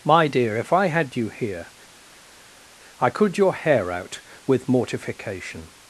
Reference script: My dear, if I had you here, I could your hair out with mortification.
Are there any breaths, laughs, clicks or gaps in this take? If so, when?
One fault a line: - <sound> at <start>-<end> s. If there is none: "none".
none